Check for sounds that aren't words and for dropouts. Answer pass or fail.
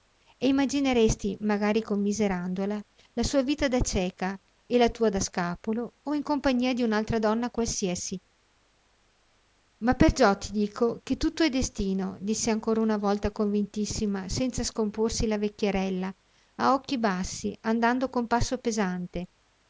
pass